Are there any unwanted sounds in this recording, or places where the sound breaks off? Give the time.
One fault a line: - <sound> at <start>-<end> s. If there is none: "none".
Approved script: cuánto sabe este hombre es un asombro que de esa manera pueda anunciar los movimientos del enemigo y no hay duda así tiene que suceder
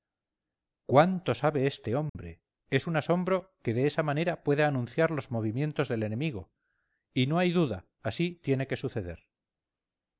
- dropout at 2.1-2.2 s